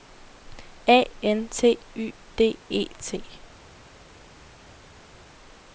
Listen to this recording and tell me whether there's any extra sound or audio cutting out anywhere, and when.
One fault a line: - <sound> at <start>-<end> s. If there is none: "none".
none